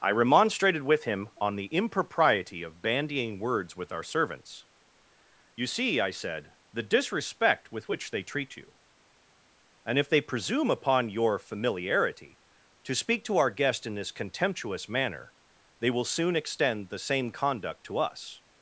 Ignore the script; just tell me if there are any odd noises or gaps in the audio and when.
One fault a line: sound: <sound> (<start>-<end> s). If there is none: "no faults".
no faults